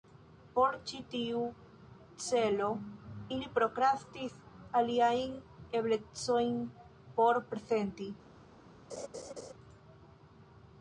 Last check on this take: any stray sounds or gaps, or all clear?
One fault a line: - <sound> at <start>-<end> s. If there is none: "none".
- laugh at 8.9-9.5 s